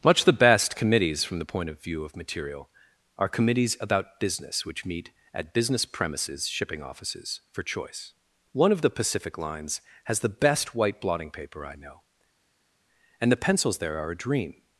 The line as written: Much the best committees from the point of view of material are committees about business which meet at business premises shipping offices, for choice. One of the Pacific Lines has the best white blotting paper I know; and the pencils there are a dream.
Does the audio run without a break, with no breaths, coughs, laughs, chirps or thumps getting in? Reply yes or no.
yes